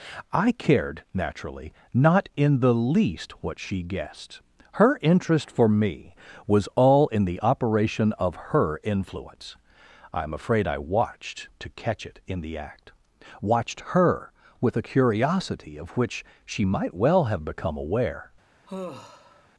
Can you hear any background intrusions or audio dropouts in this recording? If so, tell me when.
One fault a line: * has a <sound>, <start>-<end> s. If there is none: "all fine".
* has a sigh, 18.7-19.5 s